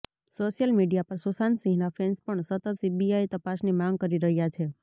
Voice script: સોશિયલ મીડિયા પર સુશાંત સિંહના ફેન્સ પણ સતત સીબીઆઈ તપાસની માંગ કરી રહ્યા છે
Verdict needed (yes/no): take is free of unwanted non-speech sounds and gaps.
yes